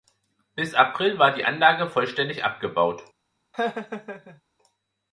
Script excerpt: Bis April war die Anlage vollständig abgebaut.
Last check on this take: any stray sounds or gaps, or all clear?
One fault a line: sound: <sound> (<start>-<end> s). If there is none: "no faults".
sound: laugh (3.5-4.4 s)